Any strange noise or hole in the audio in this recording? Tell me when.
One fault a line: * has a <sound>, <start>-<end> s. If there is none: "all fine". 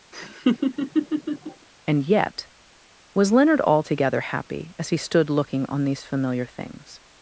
* has a laugh, 0.1-1.7 s